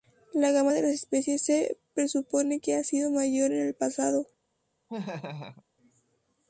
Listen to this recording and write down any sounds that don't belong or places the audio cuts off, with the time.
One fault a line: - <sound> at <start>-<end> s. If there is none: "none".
- laugh at 4.9-5.6 s